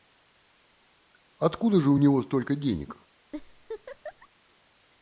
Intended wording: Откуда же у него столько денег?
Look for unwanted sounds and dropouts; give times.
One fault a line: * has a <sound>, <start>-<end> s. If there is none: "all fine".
* has a laugh, 3.3-4.3 s